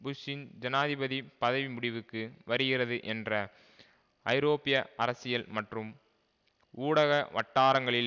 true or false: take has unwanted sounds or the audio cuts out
false